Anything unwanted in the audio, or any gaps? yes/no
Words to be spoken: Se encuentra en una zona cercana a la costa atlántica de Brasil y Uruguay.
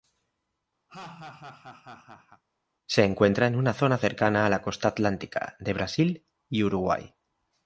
yes